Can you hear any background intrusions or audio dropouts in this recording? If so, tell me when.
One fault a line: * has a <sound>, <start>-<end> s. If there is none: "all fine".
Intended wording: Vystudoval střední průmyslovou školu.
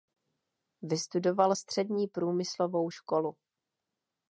all fine